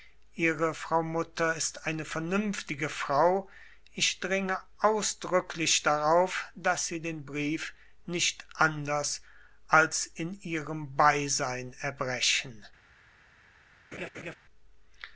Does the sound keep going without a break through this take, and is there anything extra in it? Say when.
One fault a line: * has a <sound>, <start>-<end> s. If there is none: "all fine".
* has a laugh, 13.9-14.3 s